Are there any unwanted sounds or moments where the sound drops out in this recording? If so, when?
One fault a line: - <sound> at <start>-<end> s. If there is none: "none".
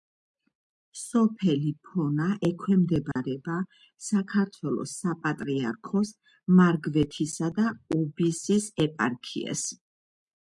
- dropout at 3.1-3.2 s